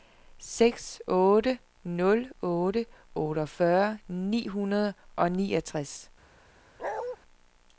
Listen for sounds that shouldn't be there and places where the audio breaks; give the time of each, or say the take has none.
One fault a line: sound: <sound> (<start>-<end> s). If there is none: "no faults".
sound: bark (6.8-7.2 s)